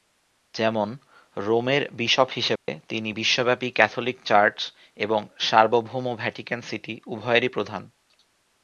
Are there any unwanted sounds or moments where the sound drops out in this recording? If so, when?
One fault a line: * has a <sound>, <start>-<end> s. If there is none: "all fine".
* has a dropout, 2.6-2.7 s